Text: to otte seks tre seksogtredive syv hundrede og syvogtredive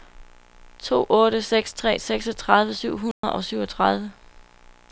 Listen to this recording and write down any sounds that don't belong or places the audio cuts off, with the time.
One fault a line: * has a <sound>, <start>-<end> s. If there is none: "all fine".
* has a dropout, 3.1-3.2 s